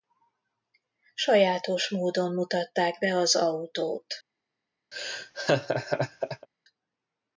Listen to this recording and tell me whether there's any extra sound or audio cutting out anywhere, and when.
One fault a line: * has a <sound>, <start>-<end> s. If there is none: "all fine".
* has a laugh, 4.9-6.5 s